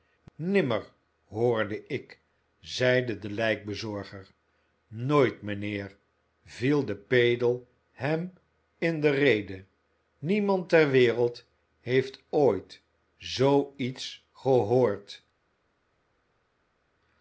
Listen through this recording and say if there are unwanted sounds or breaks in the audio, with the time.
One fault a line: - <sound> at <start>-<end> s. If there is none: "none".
none